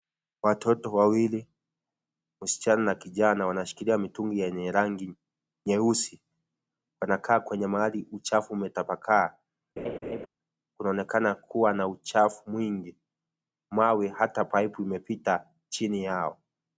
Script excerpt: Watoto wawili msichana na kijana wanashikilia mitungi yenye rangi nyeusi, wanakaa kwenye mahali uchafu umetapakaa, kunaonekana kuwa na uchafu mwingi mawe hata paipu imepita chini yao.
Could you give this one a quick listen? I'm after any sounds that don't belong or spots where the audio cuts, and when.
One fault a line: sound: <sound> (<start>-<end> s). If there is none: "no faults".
sound: laugh (9.8-10.3 s)